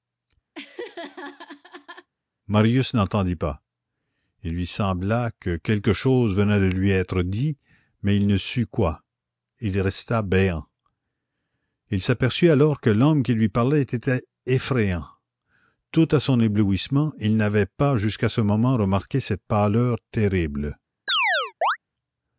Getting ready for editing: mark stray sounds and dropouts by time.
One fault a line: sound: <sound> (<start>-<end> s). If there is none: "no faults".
sound: laugh (0.5-2.1 s)
sound: chirp (21.1-21.8 s)